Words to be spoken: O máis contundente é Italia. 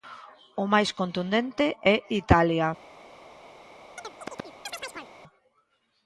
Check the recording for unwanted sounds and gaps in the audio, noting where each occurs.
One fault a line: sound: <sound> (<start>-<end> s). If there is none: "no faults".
sound: chirp (4.0-5.1 s)